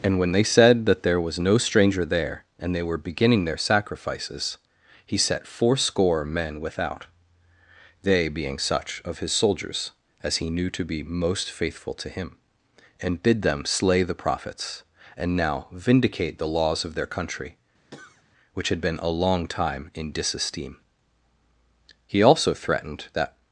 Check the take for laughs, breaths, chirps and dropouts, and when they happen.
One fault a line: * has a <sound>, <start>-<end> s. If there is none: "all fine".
* has a cough, 17.9-18.2 s